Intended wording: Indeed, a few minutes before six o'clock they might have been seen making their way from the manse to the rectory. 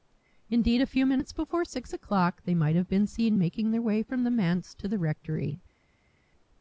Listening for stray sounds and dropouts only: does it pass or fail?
pass